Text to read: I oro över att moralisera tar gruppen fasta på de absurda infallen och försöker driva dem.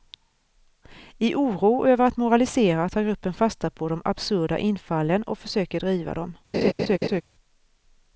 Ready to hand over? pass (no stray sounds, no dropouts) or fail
fail